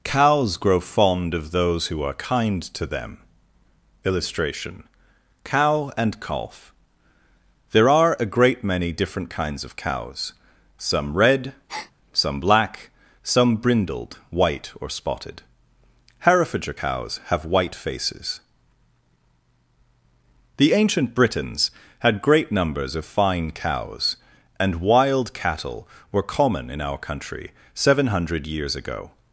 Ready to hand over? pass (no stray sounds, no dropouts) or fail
fail